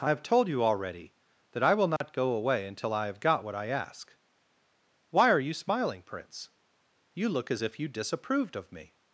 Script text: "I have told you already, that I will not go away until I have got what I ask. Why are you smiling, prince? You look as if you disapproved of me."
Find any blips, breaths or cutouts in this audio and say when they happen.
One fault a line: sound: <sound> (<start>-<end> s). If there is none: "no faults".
sound: dropout (2.0-2.0 s)